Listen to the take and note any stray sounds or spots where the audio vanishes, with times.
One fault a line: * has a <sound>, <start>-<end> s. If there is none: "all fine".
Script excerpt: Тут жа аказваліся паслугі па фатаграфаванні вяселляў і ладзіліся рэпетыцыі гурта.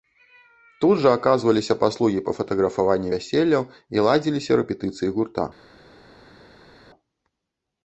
all fine